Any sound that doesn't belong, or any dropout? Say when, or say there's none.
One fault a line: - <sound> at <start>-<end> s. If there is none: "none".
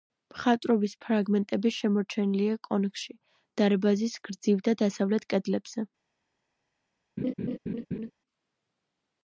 - laugh at 7.2-8.1 s